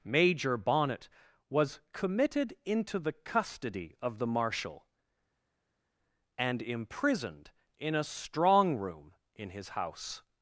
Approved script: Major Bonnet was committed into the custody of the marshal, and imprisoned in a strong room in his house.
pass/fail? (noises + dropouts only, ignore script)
pass